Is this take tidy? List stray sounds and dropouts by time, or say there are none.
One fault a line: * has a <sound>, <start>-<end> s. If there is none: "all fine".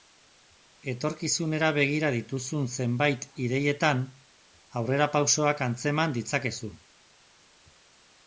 all fine